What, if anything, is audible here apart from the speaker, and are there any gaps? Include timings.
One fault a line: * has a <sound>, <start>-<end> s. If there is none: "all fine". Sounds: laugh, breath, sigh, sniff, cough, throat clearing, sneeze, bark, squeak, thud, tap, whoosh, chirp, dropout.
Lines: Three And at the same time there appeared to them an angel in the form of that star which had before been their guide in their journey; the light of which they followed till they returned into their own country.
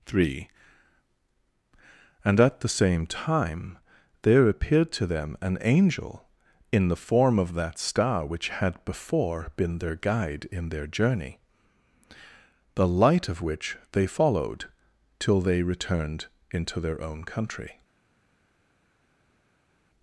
all fine